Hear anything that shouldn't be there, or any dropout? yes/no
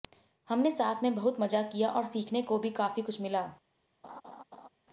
yes